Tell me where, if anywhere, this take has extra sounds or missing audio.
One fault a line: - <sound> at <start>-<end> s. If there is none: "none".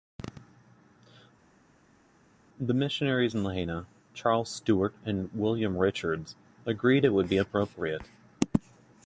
none